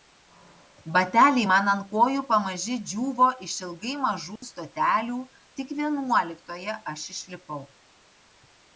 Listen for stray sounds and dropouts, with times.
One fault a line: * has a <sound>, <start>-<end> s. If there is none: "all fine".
* has a dropout, 4.4-4.4 s